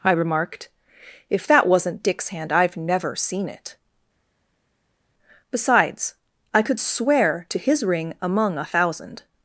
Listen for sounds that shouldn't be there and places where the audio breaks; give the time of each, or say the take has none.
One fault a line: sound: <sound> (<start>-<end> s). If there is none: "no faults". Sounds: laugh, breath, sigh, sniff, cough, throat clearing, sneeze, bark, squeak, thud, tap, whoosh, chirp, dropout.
no faults